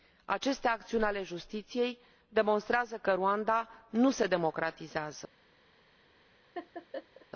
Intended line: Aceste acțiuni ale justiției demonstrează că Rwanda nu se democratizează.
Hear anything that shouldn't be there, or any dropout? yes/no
yes